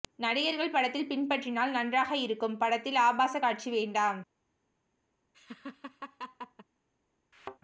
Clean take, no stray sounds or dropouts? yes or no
no